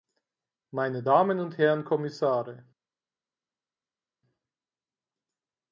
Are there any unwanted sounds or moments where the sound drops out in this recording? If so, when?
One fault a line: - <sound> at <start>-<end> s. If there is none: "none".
none